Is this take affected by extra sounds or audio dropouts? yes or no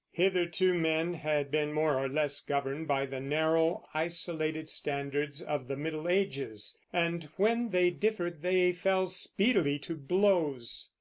no